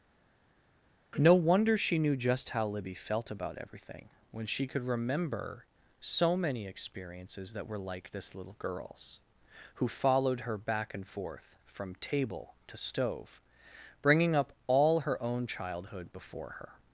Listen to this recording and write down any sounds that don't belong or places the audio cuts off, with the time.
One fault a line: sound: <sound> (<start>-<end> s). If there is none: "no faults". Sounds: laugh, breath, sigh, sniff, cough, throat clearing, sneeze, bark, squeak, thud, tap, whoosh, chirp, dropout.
no faults